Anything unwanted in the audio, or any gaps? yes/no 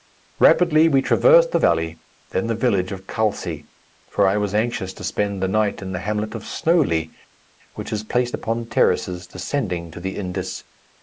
no